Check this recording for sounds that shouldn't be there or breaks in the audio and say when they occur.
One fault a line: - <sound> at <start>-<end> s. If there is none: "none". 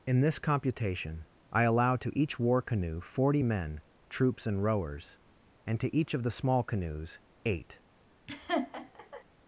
- laugh at 8.3-9.2 s